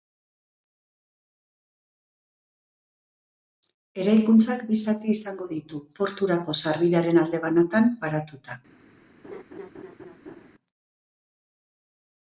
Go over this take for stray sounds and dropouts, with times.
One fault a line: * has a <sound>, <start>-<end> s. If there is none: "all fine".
* has a laugh, 9.2-10.5 s